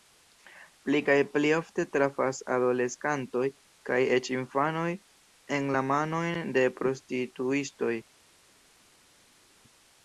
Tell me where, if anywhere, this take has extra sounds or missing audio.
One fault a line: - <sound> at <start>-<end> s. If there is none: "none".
none